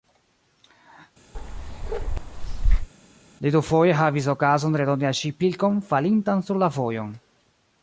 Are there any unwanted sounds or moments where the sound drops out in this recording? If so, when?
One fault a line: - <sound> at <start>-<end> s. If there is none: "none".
- bark at 1.3-2.9 s